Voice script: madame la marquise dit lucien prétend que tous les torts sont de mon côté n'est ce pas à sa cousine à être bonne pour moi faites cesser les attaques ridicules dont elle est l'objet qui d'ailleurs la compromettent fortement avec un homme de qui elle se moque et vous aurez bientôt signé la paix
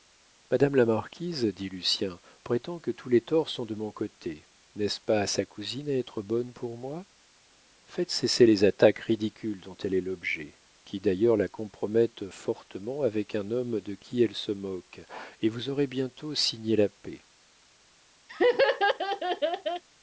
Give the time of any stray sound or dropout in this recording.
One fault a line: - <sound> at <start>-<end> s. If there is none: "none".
- laugh at 18.3-19.8 s